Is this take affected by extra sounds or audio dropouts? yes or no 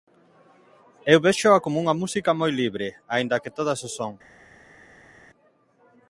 no